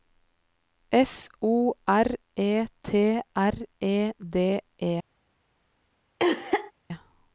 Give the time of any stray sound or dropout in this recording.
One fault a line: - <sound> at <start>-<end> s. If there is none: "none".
- cough at 6.2-6.7 s